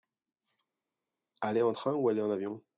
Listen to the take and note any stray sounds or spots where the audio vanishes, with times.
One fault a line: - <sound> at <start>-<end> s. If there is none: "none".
none